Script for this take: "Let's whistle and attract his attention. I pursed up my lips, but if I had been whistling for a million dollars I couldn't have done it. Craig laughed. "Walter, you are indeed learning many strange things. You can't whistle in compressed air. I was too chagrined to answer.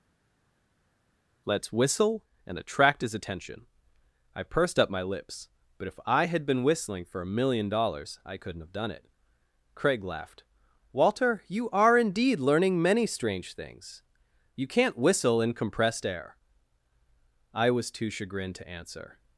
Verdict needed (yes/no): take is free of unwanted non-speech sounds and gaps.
yes